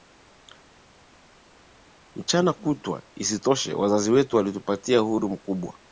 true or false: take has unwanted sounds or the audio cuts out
false